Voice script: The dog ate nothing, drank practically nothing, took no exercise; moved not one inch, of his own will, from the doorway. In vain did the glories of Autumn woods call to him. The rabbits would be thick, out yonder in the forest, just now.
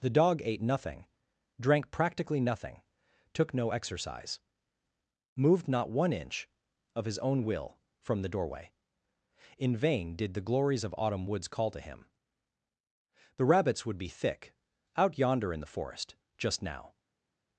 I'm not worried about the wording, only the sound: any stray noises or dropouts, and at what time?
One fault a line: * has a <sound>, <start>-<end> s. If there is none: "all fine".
all fine